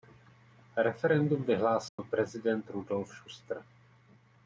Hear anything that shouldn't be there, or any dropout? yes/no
yes